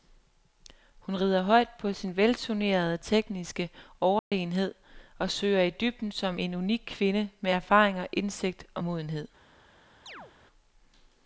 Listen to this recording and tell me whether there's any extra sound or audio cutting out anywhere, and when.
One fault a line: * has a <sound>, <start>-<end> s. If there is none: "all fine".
* has a dropout, 4.2-4.3 s
* has a chirp, 10.1-10.3 s